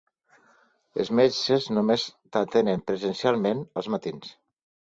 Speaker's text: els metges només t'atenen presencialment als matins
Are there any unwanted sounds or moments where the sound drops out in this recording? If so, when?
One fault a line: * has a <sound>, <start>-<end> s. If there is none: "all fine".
all fine